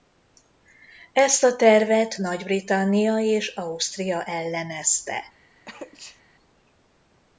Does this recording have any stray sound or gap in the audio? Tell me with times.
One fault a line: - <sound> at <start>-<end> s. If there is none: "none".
- sneeze at 5.7-6.2 s